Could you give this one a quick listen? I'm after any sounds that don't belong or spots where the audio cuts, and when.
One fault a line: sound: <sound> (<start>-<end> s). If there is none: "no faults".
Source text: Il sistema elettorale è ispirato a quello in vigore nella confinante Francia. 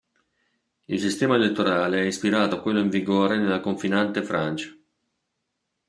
no faults